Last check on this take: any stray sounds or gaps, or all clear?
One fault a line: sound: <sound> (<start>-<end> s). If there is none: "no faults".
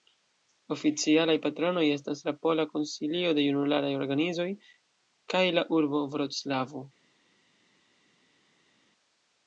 no faults